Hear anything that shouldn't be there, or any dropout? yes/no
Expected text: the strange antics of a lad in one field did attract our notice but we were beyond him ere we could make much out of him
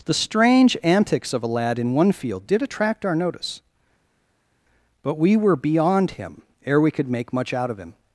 no